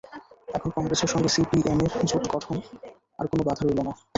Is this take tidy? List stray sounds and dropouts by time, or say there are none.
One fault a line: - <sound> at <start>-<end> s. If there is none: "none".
none